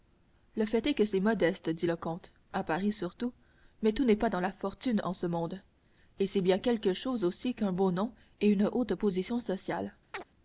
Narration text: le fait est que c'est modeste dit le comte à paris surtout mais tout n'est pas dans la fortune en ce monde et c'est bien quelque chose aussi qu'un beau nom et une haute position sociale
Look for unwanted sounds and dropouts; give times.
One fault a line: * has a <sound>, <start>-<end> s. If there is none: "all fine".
* has a chirp, 10.1-10.2 s